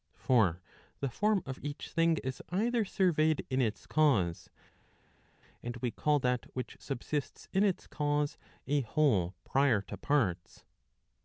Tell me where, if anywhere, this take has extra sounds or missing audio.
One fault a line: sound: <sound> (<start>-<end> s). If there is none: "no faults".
no faults